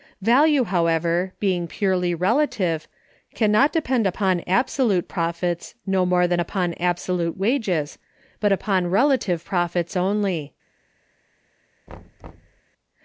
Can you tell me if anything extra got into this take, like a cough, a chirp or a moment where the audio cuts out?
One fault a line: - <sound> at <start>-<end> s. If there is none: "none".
- thud at 11.9-12.6 s